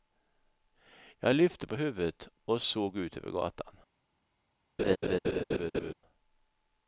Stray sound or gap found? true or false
true